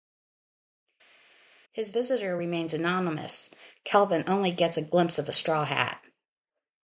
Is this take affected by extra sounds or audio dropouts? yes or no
no